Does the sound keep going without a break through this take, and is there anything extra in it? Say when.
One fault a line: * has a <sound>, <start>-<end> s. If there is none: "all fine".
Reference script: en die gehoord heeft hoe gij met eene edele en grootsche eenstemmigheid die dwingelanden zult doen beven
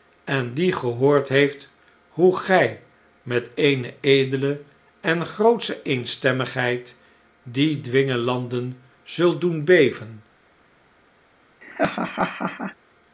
* has a laugh, 11.6-12.8 s